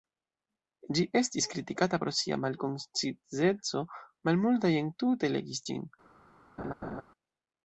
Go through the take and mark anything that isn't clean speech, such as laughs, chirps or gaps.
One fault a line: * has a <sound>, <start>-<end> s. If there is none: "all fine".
* has a laugh, 6.6-7.0 s